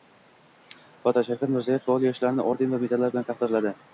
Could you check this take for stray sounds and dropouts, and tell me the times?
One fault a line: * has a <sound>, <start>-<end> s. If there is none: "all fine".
all fine